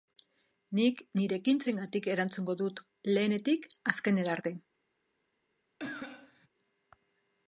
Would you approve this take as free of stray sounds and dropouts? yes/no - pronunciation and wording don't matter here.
no